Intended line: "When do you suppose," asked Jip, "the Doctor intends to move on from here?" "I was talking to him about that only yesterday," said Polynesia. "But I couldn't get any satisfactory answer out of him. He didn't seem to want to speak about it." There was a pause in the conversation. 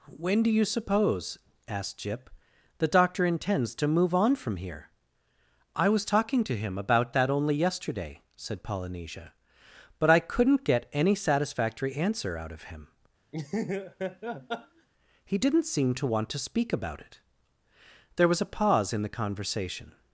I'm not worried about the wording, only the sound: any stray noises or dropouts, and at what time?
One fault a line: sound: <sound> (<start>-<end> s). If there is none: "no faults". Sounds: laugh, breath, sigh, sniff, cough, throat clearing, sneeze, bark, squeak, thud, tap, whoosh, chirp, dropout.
sound: laugh (13.3-14.9 s)